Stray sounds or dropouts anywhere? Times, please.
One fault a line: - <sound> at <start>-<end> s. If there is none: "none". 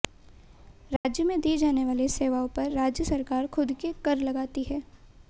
- dropout at 1.0-1.0 s